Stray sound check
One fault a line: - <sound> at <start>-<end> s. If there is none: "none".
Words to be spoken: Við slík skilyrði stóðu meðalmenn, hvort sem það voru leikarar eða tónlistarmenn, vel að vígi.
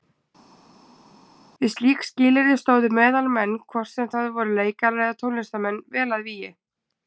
none